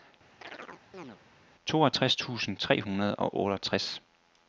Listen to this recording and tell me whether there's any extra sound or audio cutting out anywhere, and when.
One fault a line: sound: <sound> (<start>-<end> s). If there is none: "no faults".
sound: chirp (0.4-1.2 s)